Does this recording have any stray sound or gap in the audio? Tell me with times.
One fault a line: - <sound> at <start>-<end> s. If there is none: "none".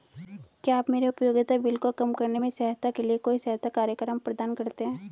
none